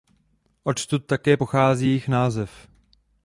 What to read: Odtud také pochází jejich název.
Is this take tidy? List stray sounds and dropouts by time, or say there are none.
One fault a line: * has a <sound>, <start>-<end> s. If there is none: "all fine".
all fine